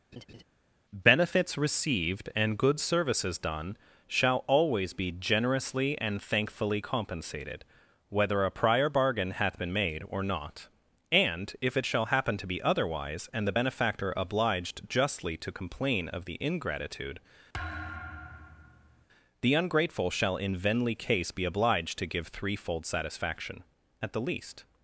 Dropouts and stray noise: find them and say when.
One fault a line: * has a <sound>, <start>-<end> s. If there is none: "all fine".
* has a laugh, 0.1-0.4 s
* has a thud, 17.5-19.1 s